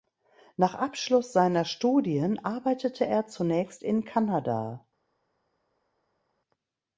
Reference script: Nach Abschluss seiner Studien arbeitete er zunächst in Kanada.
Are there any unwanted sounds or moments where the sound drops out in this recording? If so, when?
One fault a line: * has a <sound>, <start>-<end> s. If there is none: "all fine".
all fine